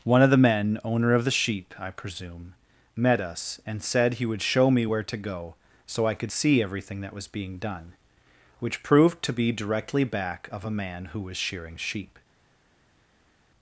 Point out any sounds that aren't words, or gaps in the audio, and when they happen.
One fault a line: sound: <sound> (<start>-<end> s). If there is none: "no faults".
no faults